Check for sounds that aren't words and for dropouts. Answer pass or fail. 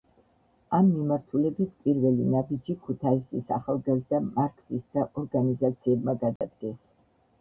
fail